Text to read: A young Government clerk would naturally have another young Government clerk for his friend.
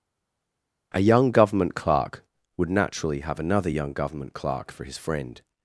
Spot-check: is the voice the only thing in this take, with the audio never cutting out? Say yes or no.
yes